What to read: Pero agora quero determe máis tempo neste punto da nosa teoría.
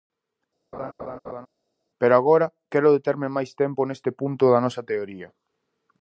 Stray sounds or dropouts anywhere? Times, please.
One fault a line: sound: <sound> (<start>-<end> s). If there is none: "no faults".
sound: laugh (0.7-1.5 s)